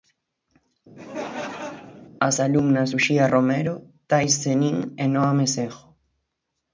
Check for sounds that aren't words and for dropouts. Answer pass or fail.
fail